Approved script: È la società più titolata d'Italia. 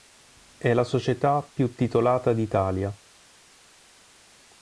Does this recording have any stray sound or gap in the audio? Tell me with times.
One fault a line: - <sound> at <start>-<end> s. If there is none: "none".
none